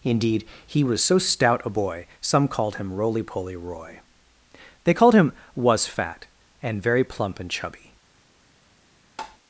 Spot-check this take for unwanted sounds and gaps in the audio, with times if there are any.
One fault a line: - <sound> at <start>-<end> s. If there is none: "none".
- tap at 9.2-9.4 s